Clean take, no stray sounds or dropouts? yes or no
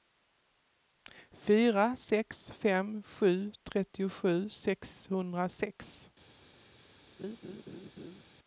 no